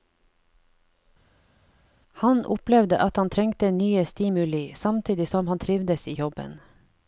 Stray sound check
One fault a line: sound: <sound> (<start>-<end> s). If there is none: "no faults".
no faults